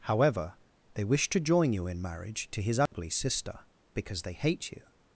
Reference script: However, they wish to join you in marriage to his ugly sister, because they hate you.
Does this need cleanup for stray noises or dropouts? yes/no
yes